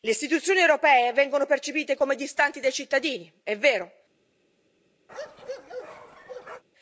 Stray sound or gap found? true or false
true